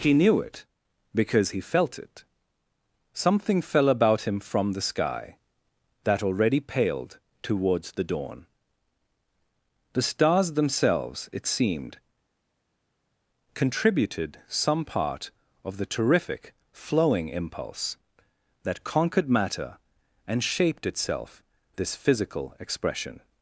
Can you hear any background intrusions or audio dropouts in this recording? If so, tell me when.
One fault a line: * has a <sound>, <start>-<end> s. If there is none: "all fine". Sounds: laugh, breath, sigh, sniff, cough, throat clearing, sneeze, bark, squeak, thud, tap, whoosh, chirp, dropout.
all fine